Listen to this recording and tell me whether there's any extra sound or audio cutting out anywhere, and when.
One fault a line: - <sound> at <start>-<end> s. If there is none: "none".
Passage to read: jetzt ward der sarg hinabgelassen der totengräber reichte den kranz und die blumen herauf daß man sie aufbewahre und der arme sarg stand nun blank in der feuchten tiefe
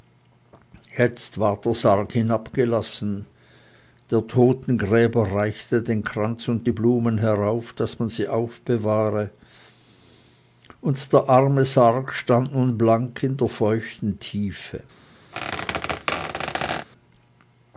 - squeak at 15.3-16.9 s